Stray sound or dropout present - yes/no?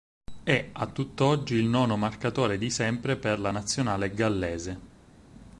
no